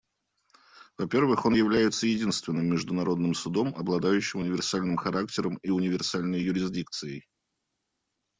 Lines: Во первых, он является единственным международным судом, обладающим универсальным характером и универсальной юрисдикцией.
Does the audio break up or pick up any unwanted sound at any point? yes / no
no